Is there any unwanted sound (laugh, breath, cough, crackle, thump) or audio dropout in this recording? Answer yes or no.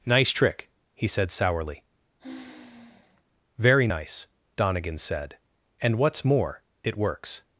yes